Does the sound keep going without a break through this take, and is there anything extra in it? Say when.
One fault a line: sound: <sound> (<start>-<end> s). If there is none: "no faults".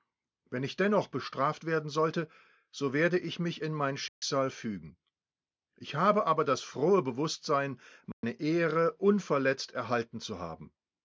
sound: dropout (4.1-4.2 s)
sound: dropout (8.1-8.2 s)